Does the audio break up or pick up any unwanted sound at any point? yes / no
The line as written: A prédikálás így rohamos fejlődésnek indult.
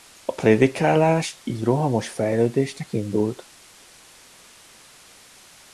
no